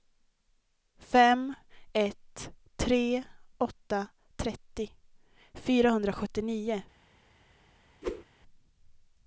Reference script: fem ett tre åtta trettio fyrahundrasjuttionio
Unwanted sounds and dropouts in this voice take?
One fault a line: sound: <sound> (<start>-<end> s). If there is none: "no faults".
sound: whoosh (8.0-8.2 s)